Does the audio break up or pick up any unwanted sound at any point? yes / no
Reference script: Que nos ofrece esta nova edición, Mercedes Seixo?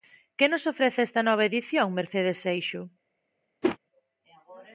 yes